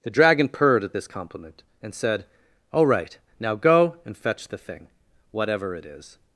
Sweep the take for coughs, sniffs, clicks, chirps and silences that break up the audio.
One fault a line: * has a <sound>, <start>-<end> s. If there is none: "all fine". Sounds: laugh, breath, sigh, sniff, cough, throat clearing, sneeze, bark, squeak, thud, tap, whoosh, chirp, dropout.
all fine